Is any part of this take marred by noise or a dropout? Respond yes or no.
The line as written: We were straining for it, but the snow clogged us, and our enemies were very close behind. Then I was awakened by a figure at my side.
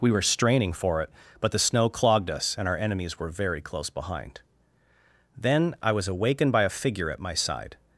no